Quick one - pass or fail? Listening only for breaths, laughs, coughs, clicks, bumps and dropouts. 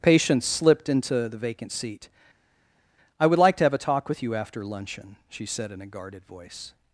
pass